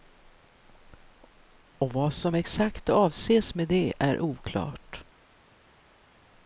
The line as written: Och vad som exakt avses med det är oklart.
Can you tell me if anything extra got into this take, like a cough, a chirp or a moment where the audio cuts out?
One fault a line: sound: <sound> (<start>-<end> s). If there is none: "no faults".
no faults